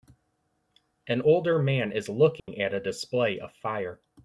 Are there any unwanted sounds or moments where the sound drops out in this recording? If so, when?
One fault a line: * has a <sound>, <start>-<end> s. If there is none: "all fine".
* has a dropout, 2.4-2.5 s